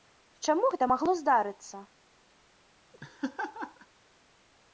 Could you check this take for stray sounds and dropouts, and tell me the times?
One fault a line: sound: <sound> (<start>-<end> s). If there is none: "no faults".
sound: laugh (2.9-3.9 s)